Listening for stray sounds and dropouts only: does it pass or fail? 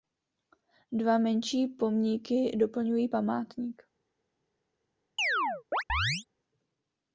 fail